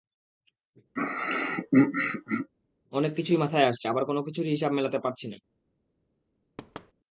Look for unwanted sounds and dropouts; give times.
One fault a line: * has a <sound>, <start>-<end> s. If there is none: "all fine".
* has a throat clearing, 1.0-2.5 s
* has a thud, 6.6-6.9 s